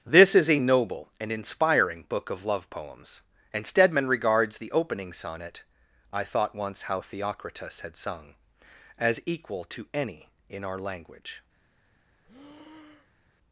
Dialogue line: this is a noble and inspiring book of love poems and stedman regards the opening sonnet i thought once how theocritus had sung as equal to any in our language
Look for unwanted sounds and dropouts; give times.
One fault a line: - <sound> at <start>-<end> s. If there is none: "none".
- breath at 12.2-13.3 s